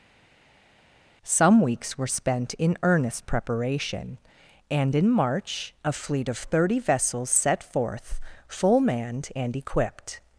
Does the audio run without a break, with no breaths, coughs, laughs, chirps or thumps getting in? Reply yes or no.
yes